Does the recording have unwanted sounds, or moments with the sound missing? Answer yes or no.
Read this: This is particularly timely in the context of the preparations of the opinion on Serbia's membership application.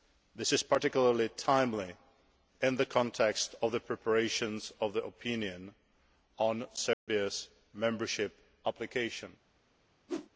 yes